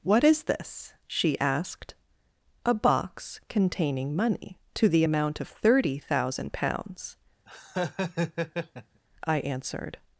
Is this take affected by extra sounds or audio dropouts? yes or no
yes